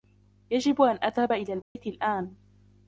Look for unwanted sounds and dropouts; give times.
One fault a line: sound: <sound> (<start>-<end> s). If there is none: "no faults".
sound: dropout (1.6-1.8 s)